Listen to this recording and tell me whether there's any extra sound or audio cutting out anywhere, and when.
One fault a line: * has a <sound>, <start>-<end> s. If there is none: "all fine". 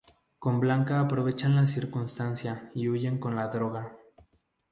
all fine